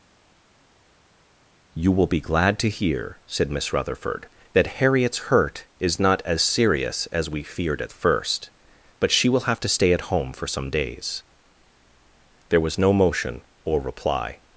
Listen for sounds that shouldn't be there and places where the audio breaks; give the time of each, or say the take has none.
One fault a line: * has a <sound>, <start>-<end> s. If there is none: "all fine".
all fine